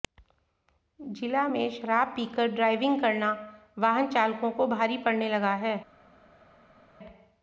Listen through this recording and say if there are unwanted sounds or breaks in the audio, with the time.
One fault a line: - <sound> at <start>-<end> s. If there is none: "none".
none